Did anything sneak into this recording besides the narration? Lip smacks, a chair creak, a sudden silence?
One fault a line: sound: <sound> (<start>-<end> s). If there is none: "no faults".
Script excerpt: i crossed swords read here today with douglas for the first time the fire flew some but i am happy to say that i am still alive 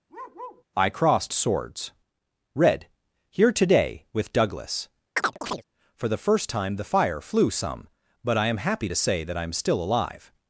sound: bark (0.1-0.6 s)
sound: chirp (5.2-5.6 s)